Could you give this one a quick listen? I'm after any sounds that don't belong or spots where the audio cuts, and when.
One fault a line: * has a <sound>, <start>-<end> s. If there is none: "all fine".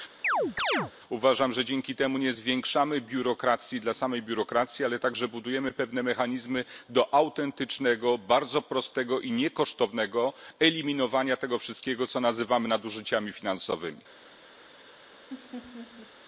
* has a chirp, 0.2-0.9 s
* has a laugh, 15.3-16.1 s